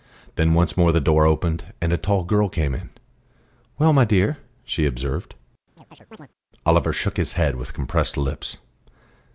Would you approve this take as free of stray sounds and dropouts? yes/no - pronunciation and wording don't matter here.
no